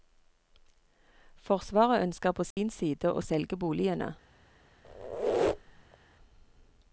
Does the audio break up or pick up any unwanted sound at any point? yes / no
yes